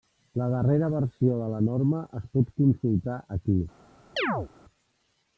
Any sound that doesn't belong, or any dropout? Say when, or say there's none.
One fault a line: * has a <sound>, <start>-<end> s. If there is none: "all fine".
* has a chirp, 4.2-4.5 s